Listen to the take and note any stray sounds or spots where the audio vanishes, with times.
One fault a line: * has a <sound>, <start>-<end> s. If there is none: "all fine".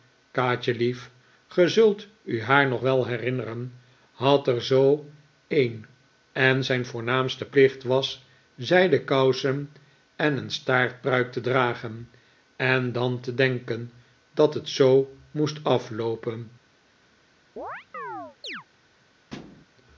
* has a chirp, 17.6-18.6 s
* has a thud, 19.3-19.7 s